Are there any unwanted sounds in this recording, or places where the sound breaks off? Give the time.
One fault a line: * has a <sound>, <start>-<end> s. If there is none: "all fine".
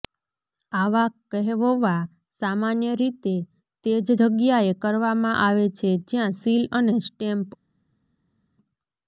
all fine